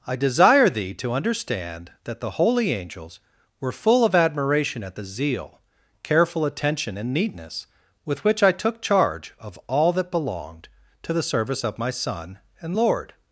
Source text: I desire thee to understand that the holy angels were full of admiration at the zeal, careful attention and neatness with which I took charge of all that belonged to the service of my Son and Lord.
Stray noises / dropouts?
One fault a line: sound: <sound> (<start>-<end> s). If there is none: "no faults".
no faults